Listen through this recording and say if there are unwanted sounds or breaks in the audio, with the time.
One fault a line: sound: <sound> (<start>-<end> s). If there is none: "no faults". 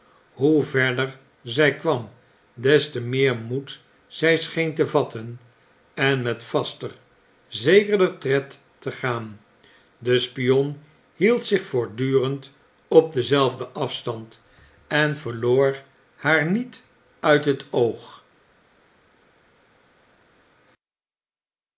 no faults